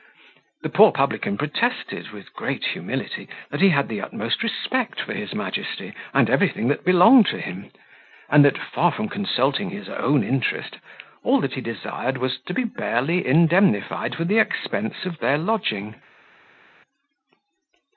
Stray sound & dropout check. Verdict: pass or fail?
pass